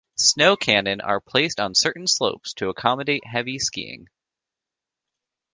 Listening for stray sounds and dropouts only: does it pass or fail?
pass